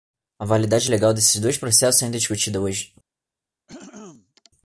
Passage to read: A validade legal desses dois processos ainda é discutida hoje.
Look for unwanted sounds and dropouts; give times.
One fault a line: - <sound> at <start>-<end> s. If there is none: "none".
- throat clearing at 3.7-4.5 s